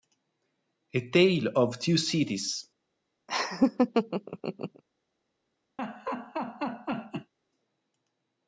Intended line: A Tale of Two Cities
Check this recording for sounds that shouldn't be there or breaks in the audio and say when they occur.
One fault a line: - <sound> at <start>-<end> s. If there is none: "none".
- laugh at 3.3-4.8 s
- laugh at 5.8-7.3 s